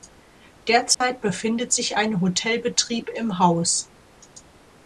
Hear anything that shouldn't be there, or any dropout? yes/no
yes